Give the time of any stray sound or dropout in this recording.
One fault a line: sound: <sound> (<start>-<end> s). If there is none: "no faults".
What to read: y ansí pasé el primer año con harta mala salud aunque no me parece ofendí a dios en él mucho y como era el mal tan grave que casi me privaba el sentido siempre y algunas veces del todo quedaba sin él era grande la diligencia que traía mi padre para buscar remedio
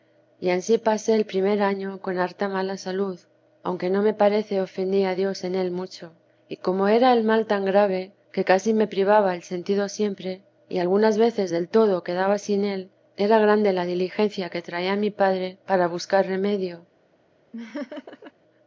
sound: laugh (17.5-18.3 s)